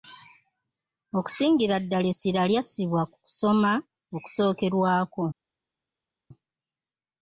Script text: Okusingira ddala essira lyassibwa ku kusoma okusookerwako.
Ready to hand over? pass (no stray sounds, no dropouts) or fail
pass